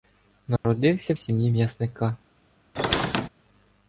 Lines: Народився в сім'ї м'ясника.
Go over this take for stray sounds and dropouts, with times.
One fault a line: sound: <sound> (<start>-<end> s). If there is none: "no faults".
sound: dropout (0.6-0.6 s)
sound: squeak (2.8-3.3 s)